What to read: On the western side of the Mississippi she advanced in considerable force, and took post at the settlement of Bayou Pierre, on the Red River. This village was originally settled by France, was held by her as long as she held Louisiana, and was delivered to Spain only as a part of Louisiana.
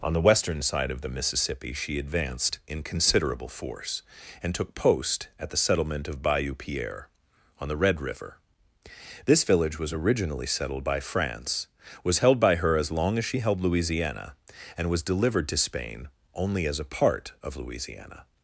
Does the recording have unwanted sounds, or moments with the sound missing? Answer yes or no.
no